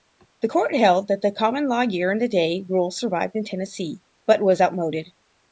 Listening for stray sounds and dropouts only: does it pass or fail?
pass